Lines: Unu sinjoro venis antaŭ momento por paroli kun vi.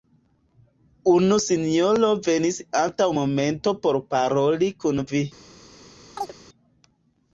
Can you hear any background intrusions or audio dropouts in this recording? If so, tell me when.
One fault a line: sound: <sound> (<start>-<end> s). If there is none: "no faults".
sound: chirp (6.2-6.3 s)